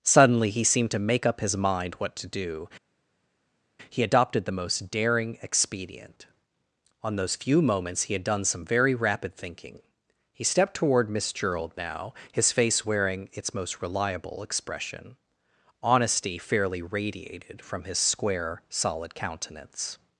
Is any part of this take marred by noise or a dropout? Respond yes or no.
no